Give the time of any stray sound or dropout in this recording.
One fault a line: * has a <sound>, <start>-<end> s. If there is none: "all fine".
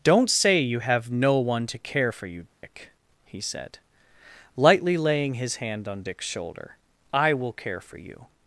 * has a dropout, 2.5-2.6 s